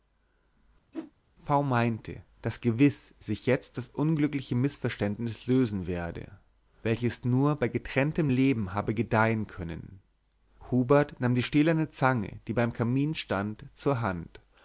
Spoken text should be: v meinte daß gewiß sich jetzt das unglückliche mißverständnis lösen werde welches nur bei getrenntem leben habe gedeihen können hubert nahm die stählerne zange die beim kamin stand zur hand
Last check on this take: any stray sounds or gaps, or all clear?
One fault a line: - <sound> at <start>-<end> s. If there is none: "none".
- whoosh at 0.9-1.1 s